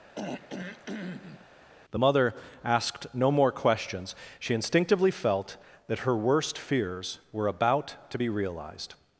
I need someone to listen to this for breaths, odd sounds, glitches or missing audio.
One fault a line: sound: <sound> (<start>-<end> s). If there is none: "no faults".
sound: throat clearing (0.1-1.5 s)